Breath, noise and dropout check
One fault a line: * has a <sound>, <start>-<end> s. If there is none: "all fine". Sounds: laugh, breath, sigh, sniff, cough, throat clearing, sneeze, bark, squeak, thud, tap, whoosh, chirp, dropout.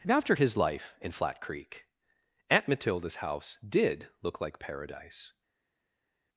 all fine